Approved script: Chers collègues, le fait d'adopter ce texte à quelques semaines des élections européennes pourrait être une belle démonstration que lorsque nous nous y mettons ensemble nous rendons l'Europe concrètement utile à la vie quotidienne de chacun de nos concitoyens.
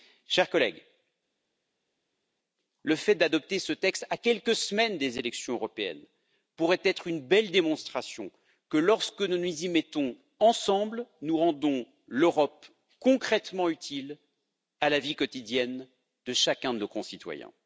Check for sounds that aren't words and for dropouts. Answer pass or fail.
pass